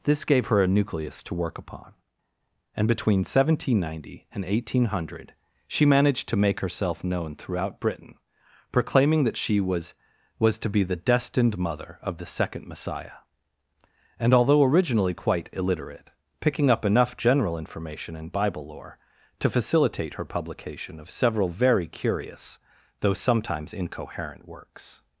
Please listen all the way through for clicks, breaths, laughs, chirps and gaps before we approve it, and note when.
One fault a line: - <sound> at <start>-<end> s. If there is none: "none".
none